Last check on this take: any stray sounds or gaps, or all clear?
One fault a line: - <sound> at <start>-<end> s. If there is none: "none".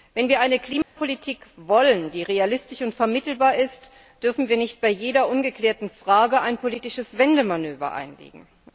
- dropout at 0.8-1.0 s